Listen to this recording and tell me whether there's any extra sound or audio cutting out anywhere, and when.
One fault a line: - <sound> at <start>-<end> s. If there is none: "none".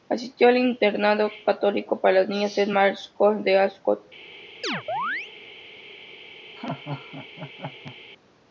- chirp at 4.6-5.3 s
- laugh at 6.6-8.0 s